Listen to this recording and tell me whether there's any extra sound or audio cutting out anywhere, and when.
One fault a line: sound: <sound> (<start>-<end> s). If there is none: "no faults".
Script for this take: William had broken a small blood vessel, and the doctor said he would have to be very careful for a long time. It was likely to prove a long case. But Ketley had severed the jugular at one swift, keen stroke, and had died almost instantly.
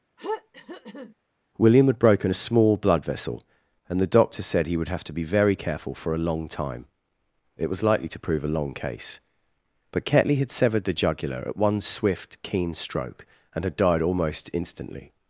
sound: throat clearing (0.2-1.1 s)